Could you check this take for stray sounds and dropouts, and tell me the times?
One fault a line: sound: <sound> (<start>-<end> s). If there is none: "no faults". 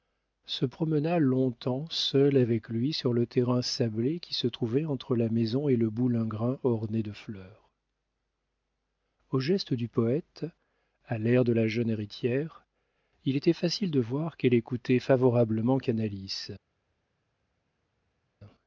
no faults